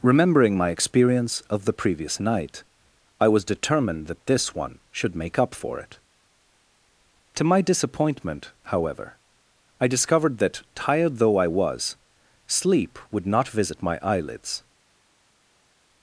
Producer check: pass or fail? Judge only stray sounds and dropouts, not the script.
pass